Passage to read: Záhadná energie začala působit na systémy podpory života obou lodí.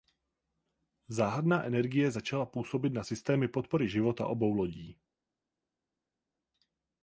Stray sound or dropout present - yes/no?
no